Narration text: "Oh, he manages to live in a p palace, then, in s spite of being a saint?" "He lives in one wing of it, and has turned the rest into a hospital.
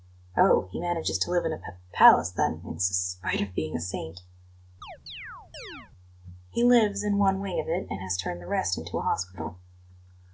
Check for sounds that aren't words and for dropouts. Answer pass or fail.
fail